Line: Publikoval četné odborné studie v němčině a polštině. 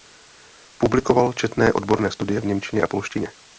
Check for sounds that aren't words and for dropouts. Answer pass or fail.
pass